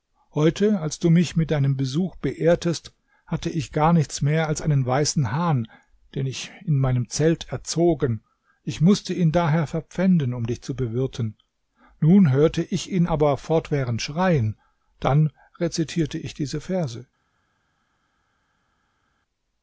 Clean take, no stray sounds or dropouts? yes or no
yes